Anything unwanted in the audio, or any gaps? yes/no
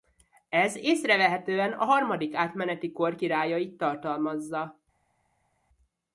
no